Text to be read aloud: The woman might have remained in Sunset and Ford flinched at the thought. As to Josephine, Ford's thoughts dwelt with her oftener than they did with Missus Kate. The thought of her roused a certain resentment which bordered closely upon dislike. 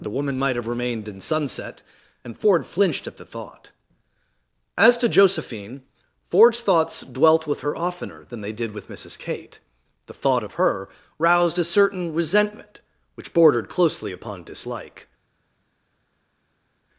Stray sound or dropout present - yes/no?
no